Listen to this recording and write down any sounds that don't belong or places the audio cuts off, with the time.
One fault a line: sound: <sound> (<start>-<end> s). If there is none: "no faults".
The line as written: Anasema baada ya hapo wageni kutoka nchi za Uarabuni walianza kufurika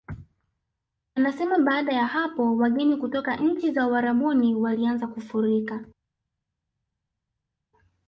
no faults